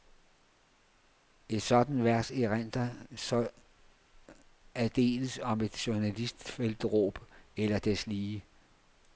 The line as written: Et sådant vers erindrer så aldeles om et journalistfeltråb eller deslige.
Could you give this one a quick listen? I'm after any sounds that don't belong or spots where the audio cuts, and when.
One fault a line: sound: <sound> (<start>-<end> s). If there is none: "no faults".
no faults